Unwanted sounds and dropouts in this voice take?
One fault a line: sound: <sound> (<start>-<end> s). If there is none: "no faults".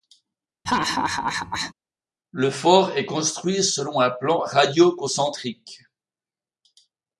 sound: laugh (0.7-1.7 s)